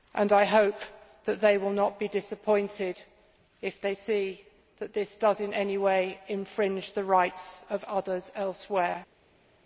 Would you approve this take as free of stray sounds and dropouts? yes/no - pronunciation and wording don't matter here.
yes